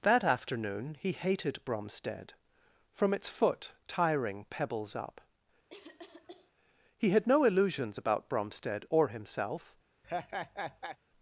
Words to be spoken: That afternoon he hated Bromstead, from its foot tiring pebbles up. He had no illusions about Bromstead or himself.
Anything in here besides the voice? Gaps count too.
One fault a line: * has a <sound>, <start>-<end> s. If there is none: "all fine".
* has a cough, 5.7-6.5 s
* has a laugh, 10.0-11.0 s